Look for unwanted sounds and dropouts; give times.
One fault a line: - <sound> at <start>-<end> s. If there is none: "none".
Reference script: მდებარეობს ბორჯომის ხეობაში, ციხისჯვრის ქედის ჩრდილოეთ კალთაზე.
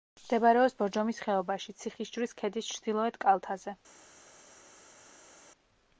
none